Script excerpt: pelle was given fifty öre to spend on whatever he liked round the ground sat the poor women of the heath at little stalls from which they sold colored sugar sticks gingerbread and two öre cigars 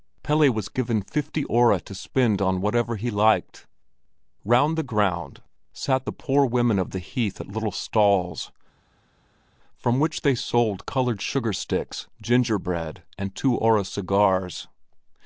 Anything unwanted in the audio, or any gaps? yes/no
no